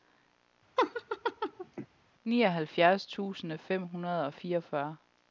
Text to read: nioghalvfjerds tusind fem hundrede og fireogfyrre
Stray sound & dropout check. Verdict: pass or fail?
fail